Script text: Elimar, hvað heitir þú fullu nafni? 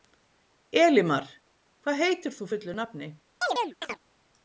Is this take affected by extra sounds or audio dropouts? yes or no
yes